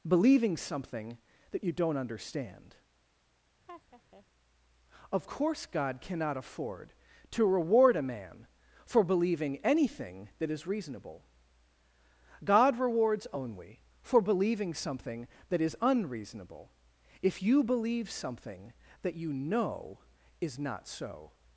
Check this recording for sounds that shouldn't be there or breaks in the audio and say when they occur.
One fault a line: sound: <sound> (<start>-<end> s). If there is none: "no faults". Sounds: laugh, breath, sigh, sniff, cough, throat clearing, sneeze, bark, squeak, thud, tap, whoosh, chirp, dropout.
sound: laugh (3.7-4.3 s)